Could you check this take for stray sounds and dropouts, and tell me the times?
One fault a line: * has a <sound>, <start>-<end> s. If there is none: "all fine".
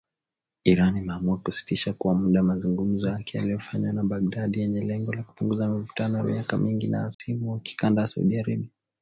* has a dropout, 7.1-7.2 s